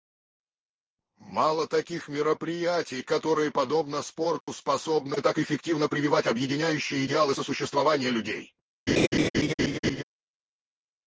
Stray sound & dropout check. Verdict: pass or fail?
fail